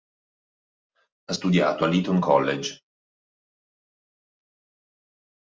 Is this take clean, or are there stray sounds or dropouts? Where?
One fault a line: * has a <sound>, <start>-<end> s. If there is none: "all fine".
all fine